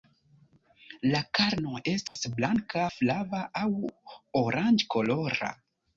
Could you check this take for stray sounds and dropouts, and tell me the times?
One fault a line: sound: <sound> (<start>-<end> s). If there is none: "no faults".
sound: dropout (2.1-2.2 s)